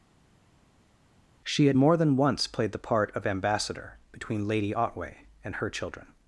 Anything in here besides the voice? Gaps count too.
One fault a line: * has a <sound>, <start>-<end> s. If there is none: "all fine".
all fine